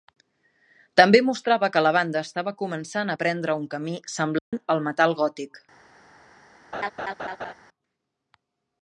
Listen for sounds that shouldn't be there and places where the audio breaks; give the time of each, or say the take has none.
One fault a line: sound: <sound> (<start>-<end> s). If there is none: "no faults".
sound: dropout (4.4-4.5 s)
sound: laugh (6.7-7.5 s)